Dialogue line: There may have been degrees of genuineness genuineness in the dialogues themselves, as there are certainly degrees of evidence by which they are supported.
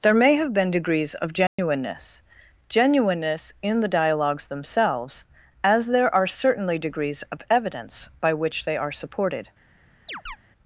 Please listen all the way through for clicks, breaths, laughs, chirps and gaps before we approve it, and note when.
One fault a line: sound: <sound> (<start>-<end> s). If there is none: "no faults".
sound: dropout (1.5-1.6 s)
sound: chirp (10.1-10.4 s)